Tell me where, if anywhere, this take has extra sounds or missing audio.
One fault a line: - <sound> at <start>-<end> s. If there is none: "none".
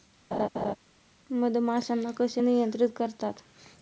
- laugh at 0.3-0.8 s